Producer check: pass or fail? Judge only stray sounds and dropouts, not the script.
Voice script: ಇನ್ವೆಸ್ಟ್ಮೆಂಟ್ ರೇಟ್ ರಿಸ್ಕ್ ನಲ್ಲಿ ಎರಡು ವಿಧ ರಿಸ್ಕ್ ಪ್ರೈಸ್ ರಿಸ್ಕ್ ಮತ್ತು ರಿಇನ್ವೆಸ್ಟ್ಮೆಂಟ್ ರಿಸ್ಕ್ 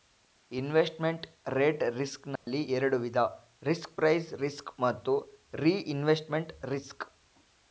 fail